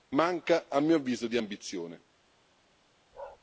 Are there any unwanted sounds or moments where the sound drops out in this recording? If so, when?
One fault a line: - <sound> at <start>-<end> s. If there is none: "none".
- bark at 3.1-3.4 s